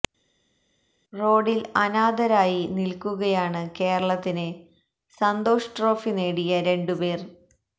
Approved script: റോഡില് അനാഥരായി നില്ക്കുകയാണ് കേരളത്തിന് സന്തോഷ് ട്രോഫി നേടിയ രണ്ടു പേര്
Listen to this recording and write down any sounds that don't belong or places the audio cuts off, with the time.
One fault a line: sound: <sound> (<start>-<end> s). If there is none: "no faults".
no faults